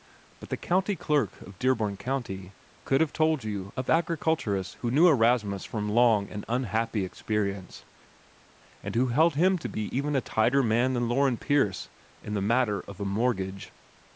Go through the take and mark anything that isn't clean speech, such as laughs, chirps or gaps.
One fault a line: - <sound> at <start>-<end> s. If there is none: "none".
none